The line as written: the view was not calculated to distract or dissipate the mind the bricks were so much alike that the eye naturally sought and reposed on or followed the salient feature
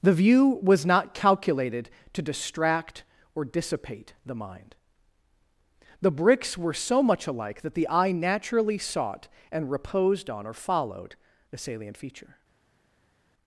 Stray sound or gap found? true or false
false